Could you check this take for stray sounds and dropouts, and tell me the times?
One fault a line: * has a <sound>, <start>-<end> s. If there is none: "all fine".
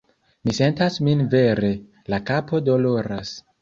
all fine